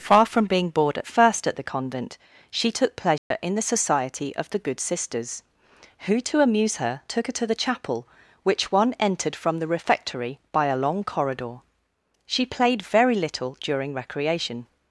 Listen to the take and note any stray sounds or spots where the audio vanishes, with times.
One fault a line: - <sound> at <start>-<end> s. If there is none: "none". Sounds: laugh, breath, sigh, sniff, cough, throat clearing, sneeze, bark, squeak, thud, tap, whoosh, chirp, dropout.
- dropout at 3.2-3.3 s